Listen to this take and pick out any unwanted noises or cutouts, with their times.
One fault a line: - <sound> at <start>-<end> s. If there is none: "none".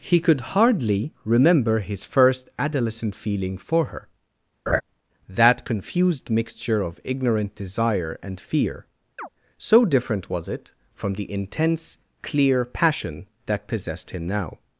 - laugh at 4.7-4.8 s
- chirp at 9.2-9.3 s